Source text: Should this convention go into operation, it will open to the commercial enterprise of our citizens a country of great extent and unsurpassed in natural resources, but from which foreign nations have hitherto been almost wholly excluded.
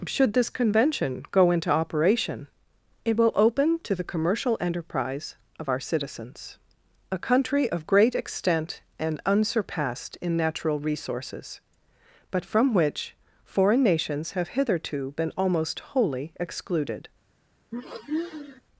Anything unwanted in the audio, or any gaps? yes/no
yes